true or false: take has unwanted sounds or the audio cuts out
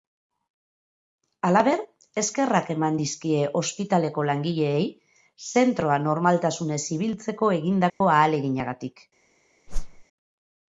true